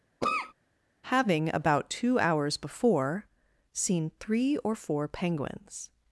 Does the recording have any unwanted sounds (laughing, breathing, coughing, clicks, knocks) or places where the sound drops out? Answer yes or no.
yes